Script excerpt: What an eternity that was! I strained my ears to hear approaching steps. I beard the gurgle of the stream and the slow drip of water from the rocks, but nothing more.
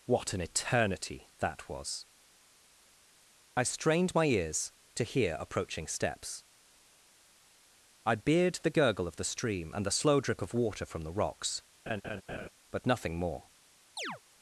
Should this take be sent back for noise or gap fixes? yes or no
yes